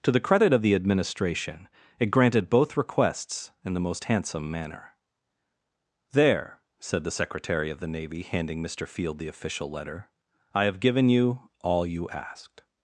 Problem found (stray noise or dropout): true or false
false